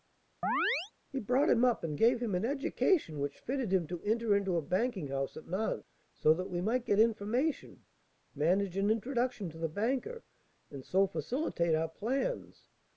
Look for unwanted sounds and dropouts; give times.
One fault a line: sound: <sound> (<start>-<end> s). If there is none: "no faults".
sound: chirp (0.4-0.9 s)